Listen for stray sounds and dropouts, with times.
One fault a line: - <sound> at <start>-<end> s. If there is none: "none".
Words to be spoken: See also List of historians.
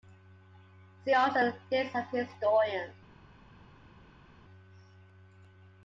none